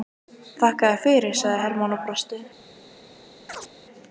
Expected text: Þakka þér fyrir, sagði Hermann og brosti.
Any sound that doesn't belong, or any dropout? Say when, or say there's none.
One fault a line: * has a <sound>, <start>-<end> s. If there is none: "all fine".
* has a chirp, 3.5-3.7 s